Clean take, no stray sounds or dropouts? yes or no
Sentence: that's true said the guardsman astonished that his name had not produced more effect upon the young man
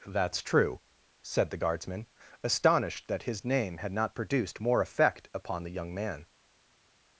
yes